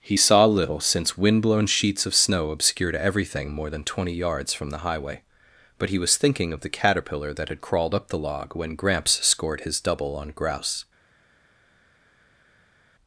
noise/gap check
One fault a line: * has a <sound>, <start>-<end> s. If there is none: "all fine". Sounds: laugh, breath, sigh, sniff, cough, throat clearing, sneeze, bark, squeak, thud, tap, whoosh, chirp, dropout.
all fine